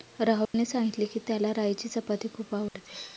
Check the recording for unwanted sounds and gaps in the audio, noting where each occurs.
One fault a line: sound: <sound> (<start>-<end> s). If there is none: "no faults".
sound: dropout (0.4-0.5 s)
sound: dropout (2.7-2.7 s)